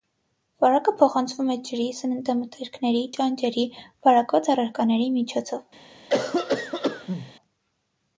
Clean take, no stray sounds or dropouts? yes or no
no